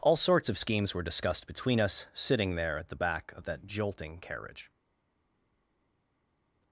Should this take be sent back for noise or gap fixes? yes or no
no